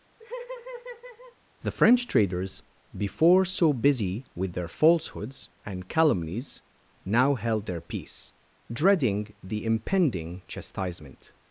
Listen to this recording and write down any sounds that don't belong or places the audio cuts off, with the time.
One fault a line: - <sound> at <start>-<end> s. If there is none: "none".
- laugh at 0.2-1.4 s